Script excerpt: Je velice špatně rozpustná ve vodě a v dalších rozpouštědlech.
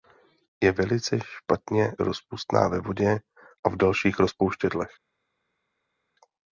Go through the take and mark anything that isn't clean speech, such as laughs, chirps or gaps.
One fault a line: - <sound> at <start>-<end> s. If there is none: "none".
none